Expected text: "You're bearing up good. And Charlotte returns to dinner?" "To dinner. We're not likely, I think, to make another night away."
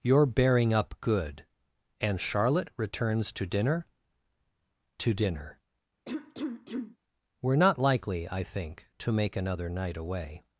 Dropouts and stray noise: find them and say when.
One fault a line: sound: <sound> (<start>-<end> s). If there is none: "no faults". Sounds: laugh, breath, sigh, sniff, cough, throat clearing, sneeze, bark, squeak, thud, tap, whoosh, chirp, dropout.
sound: cough (6.1-7.0 s)